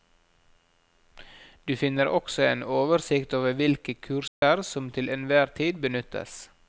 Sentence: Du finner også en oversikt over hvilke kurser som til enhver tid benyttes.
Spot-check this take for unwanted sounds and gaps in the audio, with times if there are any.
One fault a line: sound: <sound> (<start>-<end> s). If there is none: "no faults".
sound: dropout (4.3-4.4 s)